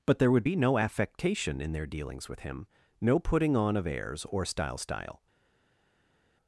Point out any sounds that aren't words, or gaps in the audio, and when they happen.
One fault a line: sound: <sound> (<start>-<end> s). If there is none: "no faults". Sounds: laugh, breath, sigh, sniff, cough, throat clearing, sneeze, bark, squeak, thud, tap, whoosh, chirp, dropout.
no faults